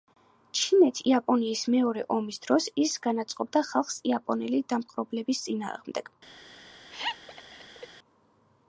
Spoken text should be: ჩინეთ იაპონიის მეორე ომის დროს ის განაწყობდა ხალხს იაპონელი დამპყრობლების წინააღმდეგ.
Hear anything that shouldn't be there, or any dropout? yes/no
yes